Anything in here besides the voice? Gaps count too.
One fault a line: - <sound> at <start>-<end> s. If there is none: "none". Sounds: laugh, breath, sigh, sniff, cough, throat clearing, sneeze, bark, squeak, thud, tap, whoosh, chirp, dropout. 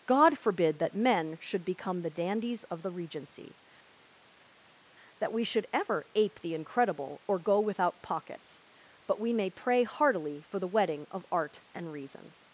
none